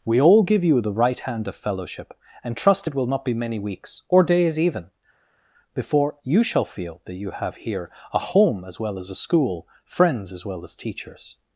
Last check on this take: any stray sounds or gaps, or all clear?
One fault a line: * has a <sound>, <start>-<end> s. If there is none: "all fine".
all fine